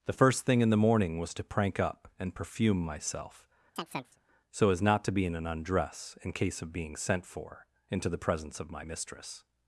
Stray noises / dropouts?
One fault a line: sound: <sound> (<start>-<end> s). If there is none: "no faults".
sound: chirp (3.8-4.2 s)